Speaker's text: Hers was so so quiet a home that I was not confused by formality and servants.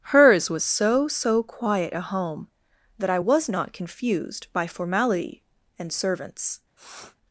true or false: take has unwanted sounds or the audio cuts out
true